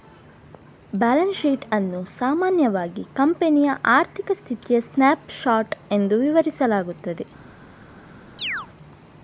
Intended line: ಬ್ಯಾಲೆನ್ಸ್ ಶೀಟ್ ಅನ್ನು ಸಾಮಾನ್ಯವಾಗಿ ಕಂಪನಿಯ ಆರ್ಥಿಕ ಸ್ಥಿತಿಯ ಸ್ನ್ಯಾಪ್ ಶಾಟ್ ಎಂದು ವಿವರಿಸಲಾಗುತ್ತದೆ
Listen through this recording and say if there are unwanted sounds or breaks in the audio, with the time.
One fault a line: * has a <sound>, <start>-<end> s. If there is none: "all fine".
* has a chirp, 8.4-8.7 s